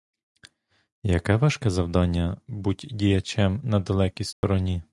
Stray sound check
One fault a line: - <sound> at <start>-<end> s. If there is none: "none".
- dropout at 4.3-4.4 s